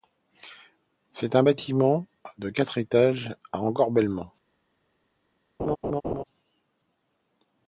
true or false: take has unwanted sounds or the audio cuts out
true